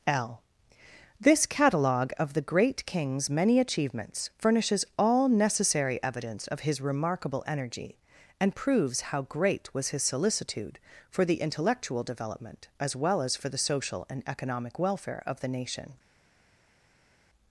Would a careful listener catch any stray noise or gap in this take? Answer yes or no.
no